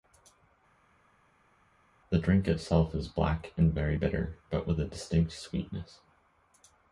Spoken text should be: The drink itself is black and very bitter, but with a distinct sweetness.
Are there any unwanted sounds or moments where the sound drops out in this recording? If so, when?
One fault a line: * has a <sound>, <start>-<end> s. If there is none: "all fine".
all fine